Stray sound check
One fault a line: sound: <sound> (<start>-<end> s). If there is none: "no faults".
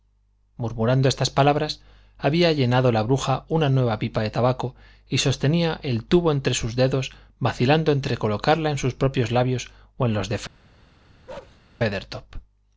sound: bark (11.3-11.6 s)